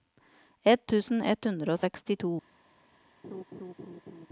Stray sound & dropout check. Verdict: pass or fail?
fail